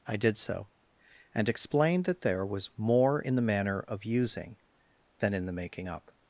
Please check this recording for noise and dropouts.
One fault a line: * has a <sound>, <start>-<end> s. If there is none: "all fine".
all fine